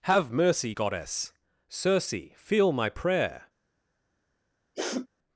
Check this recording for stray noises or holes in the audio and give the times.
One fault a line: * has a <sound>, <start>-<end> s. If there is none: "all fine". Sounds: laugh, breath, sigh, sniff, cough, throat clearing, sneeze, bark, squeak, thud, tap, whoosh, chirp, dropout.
* has a sniff, 4.7-5.1 s